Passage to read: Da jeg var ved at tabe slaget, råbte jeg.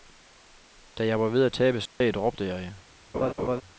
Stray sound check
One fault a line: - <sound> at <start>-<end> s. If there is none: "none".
- dropout at 1.9-2.0 s
- laugh at 3.1-3.6 s